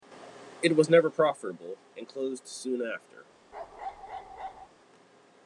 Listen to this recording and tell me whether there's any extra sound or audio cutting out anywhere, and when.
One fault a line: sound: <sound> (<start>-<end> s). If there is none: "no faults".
sound: bark (3.5-4.7 s)